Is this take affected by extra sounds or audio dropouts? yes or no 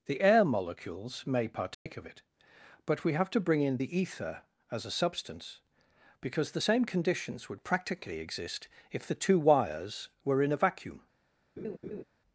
yes